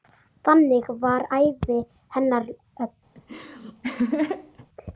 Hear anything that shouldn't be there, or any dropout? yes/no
yes